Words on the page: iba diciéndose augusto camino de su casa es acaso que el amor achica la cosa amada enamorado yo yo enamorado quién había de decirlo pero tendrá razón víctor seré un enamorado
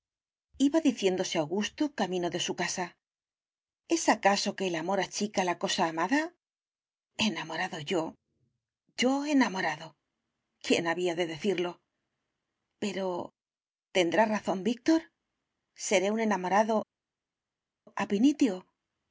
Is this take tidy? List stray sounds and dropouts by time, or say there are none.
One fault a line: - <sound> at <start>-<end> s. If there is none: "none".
none